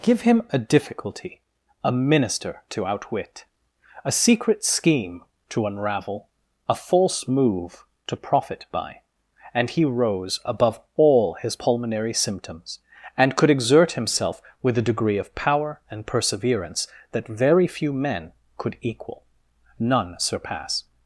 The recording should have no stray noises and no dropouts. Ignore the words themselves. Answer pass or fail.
pass